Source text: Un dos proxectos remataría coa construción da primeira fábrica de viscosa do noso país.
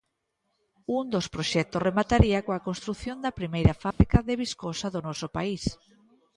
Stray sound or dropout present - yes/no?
yes